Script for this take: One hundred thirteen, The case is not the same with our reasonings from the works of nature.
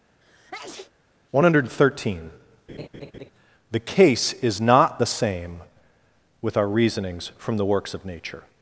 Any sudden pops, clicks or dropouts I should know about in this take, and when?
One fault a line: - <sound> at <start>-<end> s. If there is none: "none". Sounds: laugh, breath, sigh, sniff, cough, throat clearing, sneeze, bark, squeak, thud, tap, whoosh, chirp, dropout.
- sneeze at 0.2-0.9 s
- laugh at 2.7-3.3 s